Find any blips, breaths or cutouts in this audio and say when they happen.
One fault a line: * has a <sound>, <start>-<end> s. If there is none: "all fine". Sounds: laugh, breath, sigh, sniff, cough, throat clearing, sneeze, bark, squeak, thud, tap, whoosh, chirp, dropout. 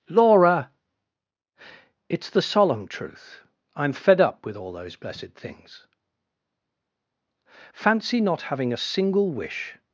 all fine